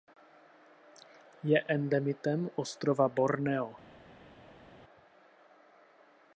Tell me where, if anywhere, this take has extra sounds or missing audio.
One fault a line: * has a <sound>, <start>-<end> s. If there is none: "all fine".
all fine